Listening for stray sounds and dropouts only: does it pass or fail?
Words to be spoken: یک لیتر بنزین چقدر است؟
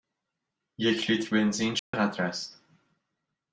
fail